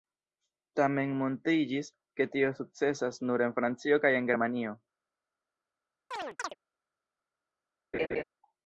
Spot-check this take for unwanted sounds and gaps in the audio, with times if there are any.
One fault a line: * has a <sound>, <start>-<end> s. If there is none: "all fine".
* has a chirp, 6.1-6.6 s
* has a laugh, 7.9-8.2 s